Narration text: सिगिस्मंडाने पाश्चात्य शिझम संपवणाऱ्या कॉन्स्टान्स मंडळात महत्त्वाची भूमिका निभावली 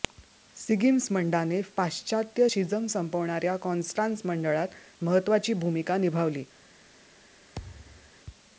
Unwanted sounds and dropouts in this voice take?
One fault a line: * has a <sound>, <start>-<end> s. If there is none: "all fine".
* has a thud, 7.5-8.1 s